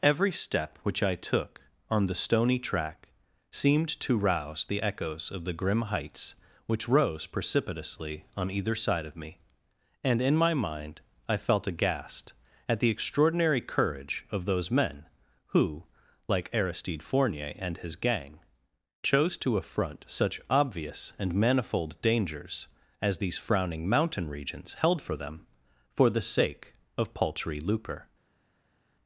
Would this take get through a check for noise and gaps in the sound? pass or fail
pass